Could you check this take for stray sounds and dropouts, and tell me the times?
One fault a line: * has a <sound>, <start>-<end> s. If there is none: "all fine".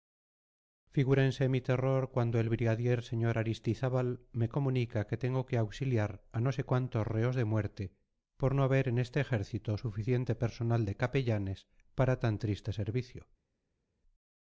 all fine